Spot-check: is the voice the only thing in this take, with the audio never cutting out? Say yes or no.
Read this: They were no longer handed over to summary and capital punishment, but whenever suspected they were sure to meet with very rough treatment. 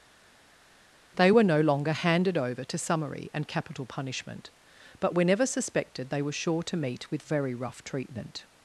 yes